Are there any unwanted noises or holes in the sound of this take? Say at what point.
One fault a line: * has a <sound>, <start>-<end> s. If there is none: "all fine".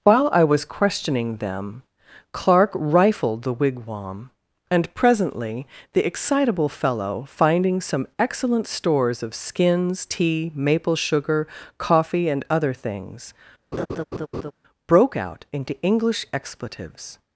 * has a laugh, 13.7-14.5 s